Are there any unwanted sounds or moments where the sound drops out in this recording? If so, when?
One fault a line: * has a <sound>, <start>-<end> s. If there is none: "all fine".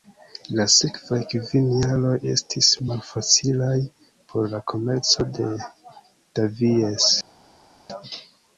all fine